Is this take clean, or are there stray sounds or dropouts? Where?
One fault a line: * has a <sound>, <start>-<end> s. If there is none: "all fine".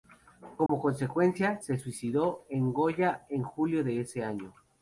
* has a dropout, 0.7-0.7 s